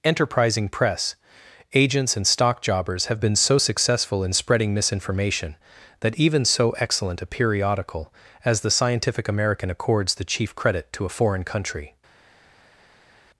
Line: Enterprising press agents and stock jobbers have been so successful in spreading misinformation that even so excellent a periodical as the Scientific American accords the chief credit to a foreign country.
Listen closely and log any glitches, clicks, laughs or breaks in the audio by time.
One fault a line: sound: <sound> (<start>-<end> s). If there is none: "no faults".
no faults